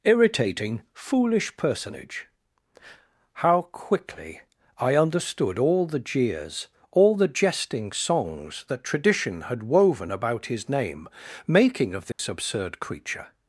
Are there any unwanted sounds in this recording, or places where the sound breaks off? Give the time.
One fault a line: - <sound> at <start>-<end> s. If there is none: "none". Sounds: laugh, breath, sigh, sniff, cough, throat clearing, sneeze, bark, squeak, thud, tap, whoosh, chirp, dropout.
- dropout at 12.1-12.2 s